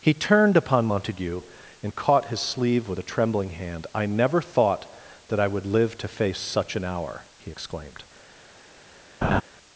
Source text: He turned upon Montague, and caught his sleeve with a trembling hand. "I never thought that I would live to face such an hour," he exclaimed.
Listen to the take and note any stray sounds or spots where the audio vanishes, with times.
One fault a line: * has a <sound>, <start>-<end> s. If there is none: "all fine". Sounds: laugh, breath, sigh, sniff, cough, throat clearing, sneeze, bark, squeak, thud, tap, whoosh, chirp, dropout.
* has a laugh, 9.2-9.4 s